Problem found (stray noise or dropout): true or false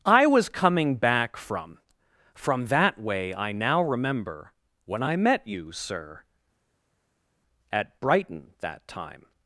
false